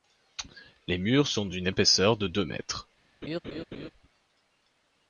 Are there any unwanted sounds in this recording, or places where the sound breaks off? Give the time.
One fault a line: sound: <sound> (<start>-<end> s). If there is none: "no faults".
sound: laugh (3.2-3.9 s)